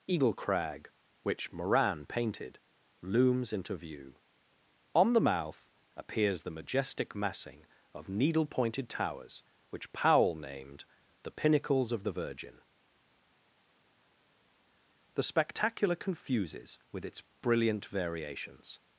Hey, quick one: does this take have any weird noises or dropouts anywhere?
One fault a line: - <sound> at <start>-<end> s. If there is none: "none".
none